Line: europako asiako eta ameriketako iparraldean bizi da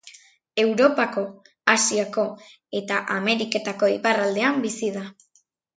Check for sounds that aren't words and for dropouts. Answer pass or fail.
pass